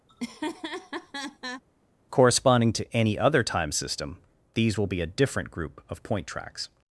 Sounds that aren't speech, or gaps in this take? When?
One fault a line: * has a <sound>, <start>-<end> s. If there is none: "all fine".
* has a laugh, 0.1-1.6 s